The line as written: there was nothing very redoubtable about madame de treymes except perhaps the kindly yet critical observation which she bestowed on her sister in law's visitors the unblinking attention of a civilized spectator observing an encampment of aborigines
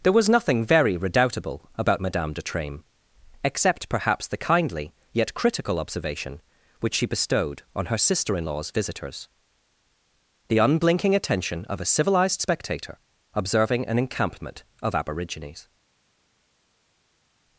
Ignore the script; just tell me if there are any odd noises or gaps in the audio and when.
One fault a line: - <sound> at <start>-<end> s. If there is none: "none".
none